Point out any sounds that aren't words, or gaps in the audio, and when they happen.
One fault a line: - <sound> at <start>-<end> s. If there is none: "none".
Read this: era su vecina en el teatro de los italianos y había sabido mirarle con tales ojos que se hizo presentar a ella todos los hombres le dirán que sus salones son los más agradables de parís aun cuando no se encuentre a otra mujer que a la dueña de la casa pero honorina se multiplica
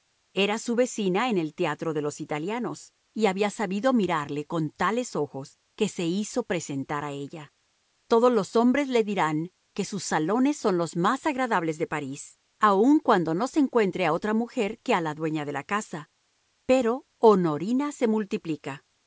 none